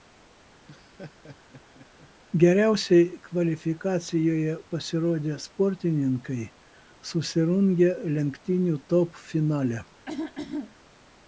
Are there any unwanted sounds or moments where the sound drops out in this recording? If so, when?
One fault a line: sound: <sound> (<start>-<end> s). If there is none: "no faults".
sound: laugh (0.7-2.1 s)
sound: throat clearing (10.1-10.7 s)